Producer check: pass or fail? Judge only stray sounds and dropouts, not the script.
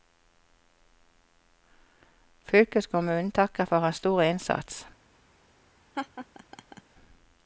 fail